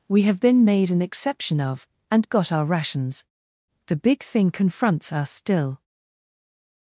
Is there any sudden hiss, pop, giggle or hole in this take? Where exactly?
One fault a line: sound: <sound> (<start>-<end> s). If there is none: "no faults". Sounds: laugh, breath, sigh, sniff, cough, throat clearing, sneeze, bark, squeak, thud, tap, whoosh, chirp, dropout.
no faults